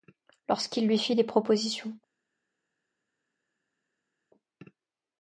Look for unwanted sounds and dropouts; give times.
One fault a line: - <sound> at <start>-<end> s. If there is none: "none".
none